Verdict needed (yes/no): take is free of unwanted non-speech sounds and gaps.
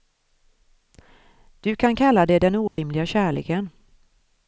no